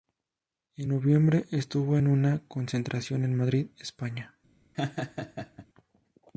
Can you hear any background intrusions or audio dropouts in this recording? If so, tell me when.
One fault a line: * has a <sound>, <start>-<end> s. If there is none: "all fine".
* has a laugh, 4.7-5.7 s